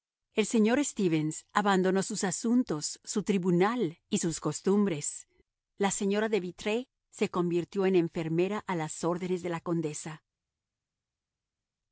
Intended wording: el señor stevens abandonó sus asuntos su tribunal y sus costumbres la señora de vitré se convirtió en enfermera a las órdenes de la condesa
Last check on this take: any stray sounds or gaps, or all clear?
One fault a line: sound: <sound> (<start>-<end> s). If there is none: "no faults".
no faults